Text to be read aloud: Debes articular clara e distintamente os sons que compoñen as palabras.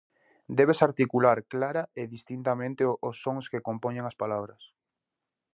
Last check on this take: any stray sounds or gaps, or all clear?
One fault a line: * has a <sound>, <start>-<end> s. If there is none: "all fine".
all fine